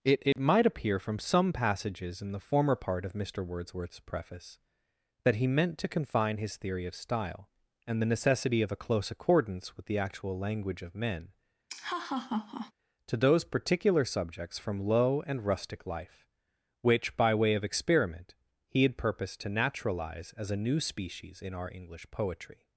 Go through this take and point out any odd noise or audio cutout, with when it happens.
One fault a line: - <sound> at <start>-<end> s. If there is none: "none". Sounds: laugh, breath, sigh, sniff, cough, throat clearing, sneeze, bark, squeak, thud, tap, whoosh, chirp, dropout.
- dropout at 0.3-0.4 s
- laugh at 11.7-12.7 s